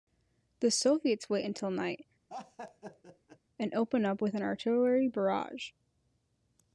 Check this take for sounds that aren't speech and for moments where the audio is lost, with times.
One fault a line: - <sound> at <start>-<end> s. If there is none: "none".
- laugh at 2.3-3.4 s